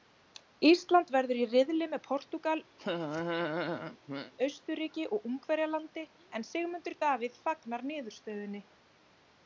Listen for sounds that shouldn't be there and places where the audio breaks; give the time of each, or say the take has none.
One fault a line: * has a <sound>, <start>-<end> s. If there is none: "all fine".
* has a laugh, 2.8-4.3 s